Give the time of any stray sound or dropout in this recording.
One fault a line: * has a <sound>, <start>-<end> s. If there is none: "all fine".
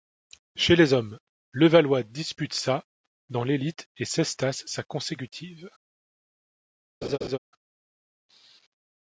* has a laugh, 7.0-7.4 s